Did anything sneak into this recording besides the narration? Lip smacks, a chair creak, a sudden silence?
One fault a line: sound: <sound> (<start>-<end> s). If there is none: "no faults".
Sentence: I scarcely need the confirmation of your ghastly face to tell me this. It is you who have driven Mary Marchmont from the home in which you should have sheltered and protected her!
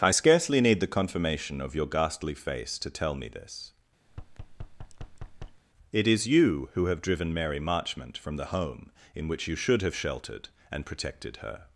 sound: thud (4.1-5.6 s)